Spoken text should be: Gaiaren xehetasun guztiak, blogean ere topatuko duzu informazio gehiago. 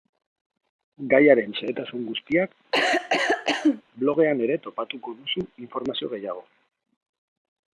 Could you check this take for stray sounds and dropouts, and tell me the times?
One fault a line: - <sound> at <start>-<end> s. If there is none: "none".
- cough at 2.7-3.8 s